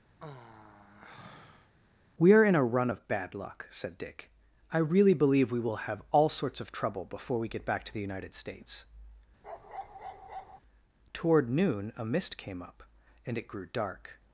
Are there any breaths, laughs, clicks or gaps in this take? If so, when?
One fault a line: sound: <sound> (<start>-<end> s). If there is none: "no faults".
sound: sigh (0.2-1.8 s)
sound: bark (9.4-10.6 s)